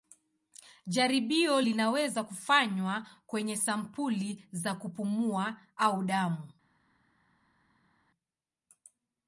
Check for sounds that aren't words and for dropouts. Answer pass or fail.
pass